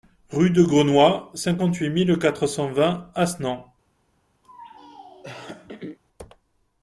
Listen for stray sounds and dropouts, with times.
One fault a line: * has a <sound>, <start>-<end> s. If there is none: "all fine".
* has a throat clearing, 4.4-6.0 s